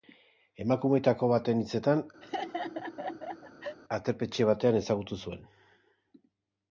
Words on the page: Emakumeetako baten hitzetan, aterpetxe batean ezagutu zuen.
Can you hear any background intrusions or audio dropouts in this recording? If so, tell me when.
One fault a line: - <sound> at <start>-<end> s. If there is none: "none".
- laugh at 2.2-3.8 s